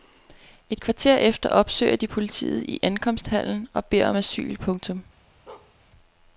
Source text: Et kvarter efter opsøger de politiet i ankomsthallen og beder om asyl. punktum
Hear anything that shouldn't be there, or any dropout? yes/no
yes